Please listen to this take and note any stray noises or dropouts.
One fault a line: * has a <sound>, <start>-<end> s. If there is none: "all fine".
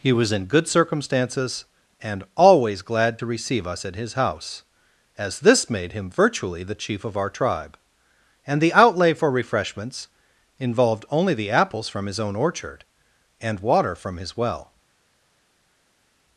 all fine